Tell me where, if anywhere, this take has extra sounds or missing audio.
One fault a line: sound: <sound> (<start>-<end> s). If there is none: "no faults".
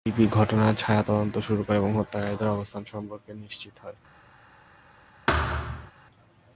sound: thud (5.3-5.9 s)